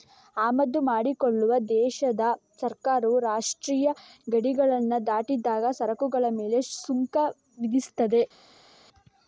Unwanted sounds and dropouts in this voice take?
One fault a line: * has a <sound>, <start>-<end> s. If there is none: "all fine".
all fine